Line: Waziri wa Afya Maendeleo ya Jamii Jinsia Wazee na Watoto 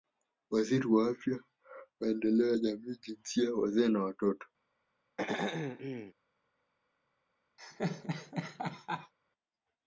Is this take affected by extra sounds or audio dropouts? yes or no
yes